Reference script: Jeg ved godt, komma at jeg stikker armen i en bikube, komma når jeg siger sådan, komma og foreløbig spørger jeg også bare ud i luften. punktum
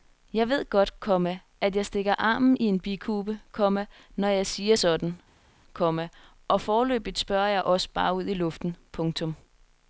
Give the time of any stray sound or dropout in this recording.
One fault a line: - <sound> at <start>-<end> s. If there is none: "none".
none